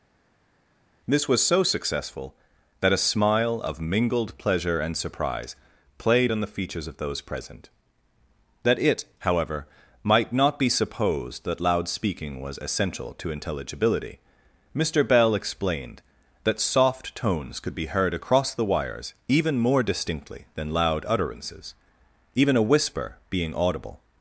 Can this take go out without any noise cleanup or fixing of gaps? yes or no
yes